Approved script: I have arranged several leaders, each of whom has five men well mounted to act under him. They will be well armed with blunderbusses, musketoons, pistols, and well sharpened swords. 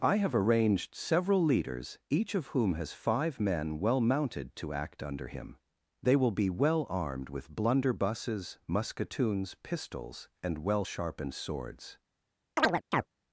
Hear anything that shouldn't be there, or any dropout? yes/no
yes